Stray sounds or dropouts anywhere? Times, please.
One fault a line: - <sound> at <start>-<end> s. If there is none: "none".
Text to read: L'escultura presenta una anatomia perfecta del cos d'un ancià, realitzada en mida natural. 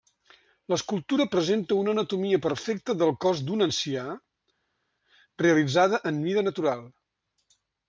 none